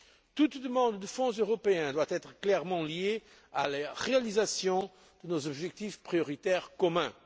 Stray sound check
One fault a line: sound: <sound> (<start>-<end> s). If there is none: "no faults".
no faults